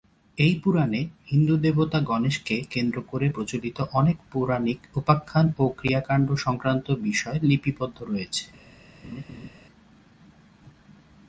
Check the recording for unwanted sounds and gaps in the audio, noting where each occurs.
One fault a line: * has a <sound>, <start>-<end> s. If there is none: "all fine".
* has a laugh, 9.0-9.5 s